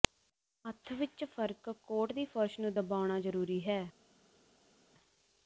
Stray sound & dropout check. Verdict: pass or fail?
pass